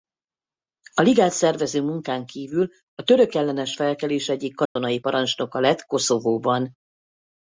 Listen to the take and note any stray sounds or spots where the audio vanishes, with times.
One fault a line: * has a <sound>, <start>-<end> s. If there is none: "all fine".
* has a dropout, 4.7-4.8 s